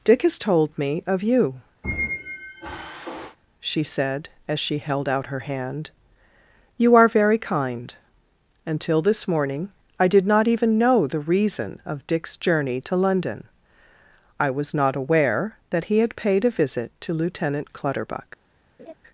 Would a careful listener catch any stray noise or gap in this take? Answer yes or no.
yes